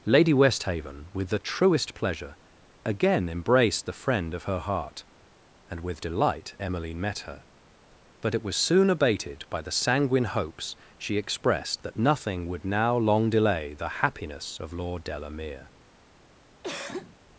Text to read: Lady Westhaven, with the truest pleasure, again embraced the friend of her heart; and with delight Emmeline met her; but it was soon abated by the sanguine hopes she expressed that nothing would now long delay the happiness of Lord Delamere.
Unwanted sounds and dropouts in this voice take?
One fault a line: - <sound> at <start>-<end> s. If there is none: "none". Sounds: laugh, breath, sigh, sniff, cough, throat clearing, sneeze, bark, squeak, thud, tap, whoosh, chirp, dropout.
- cough at 16.6-17.2 s